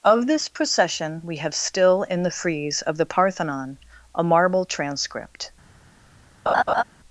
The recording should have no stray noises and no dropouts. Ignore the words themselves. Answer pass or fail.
fail